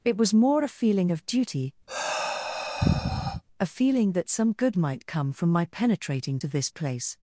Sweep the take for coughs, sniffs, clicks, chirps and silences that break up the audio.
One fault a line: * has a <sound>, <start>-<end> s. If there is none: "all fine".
* has a sigh, 1.9-3.4 s